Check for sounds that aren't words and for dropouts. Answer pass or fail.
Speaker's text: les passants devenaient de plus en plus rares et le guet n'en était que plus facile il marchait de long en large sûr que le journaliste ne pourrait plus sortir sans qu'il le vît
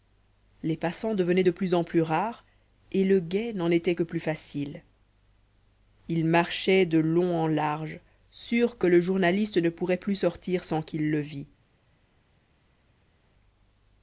pass